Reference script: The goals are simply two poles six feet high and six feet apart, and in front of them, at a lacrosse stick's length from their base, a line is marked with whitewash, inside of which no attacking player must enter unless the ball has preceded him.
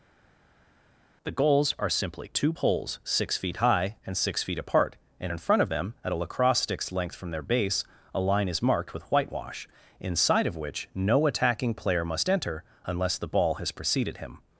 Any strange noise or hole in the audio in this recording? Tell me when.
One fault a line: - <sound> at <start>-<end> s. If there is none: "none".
none